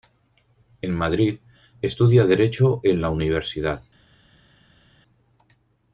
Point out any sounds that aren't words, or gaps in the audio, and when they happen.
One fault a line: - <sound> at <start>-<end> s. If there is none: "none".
none